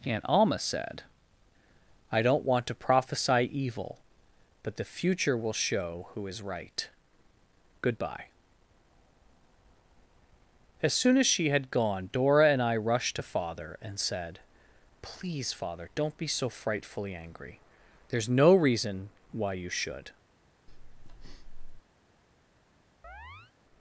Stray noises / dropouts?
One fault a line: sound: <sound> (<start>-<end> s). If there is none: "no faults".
sound: breath (20.7-21.8 s)
sound: chirp (23.0-23.5 s)